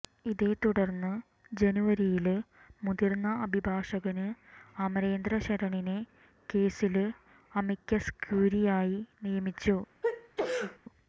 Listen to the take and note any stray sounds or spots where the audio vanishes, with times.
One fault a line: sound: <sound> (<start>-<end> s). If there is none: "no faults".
sound: sneeze (10.0-10.8 s)